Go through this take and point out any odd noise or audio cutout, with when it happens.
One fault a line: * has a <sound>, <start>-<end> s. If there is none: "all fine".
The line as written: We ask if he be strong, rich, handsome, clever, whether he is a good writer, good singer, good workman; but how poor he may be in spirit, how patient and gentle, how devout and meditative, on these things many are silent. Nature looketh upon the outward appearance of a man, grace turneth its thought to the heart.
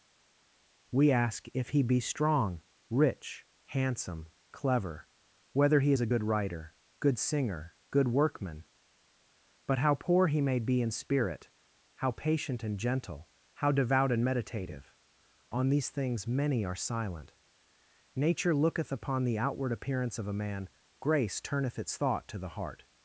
all fine